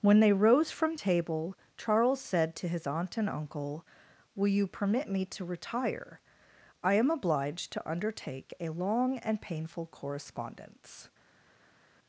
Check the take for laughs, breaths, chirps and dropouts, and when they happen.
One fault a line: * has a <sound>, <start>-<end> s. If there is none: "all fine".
all fine